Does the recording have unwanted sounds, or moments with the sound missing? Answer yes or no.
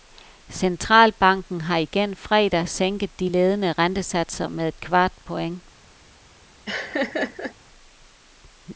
yes